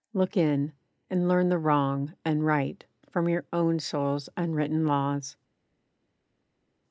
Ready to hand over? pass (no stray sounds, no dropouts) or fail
pass